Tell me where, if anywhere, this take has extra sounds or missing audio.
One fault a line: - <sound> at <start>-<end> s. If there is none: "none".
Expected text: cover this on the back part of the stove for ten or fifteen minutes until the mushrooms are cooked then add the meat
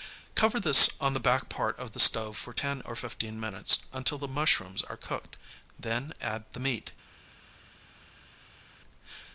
none